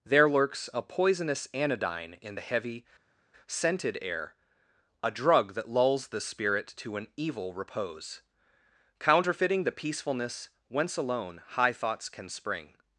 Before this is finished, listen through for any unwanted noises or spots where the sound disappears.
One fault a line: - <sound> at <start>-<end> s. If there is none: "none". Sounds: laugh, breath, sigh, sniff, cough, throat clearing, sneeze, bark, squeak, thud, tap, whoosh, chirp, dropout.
none